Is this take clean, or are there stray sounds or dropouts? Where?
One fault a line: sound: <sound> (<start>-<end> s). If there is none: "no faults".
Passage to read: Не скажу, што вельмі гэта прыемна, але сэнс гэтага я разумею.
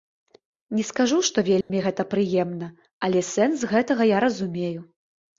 sound: dropout (1.6-1.7 s)